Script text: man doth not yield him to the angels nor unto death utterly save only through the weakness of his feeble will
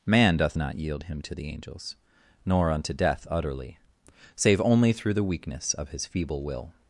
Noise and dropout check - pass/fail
pass